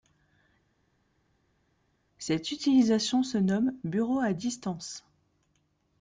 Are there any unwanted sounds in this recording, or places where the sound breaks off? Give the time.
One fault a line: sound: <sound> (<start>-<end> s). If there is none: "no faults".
no faults